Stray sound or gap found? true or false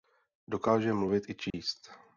true